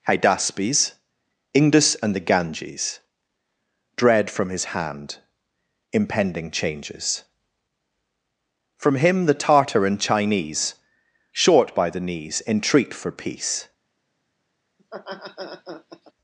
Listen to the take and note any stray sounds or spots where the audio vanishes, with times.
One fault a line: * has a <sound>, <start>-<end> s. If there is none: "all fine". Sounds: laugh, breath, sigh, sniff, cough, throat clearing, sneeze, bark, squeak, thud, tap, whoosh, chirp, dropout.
* has a laugh, 14.8-16.1 s